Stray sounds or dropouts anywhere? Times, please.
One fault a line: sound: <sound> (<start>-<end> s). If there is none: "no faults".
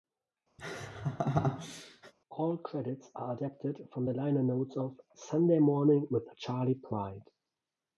sound: laugh (0.6-2.1 s)